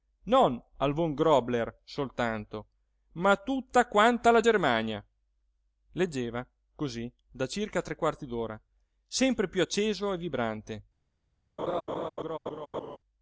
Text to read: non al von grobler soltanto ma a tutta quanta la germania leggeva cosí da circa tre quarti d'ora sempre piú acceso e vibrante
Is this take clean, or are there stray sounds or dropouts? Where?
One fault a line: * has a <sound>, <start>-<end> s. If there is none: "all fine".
* has a laugh, 11.6-13.0 s